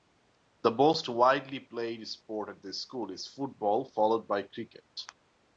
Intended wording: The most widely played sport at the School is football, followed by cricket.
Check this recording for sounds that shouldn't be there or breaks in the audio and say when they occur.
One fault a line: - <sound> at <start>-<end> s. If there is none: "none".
none